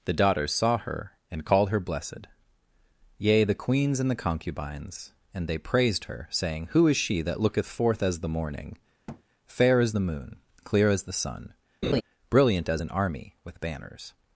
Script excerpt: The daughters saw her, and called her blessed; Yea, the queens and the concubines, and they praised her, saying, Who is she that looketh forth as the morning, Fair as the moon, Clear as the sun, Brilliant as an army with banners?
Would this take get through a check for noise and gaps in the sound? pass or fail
fail